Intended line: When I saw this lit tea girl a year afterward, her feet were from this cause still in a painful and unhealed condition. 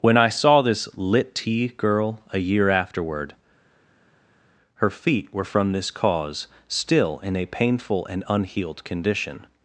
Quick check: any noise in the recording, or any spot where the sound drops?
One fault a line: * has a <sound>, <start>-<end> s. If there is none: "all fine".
all fine